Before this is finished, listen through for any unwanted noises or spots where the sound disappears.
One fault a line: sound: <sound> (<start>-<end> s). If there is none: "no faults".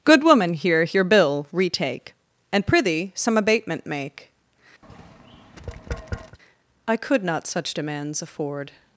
sound: tap (4.8-6.4 s)